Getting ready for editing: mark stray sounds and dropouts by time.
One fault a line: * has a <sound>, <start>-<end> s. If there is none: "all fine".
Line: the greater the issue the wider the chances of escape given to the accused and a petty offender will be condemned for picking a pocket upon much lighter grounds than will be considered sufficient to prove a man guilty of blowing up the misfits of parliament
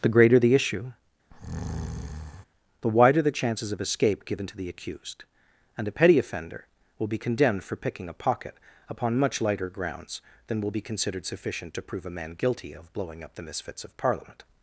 * has a breath, 1.3-2.5 s